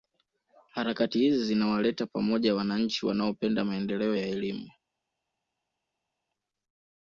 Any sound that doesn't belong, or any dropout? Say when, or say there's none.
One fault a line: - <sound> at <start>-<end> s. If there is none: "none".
none